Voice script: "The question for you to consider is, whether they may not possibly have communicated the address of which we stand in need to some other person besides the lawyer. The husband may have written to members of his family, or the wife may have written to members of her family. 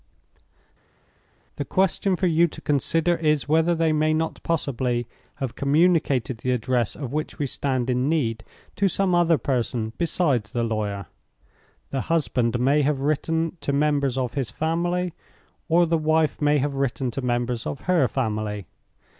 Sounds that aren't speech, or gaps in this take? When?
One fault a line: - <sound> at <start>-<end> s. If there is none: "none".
none